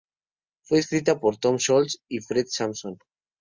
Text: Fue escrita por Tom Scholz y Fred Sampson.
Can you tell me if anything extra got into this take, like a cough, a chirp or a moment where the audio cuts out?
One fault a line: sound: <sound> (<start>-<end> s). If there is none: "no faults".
no faults